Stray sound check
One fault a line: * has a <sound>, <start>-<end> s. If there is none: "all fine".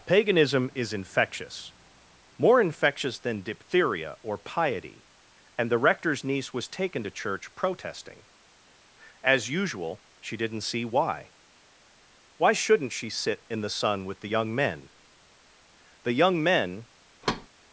* has a thud, 17.2-17.5 s